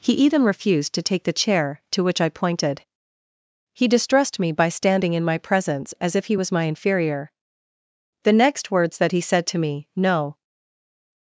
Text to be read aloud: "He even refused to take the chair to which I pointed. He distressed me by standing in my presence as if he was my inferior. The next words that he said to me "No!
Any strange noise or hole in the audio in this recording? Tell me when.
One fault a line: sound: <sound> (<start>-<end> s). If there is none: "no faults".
no faults